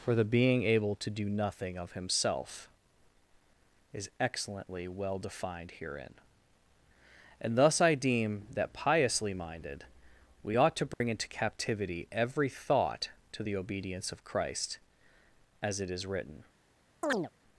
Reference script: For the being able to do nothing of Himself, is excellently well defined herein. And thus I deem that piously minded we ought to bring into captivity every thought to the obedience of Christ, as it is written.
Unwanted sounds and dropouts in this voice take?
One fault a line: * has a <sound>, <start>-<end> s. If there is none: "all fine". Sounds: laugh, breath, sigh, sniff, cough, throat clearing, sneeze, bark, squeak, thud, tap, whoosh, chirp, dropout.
* has a dropout, 10.9-11.0 s
* has a chirp, 17.0-17.3 s